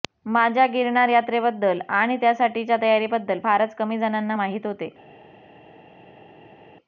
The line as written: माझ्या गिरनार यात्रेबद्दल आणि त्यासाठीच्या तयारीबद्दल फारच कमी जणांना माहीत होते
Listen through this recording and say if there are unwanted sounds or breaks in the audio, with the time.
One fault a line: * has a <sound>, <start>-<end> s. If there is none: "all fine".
all fine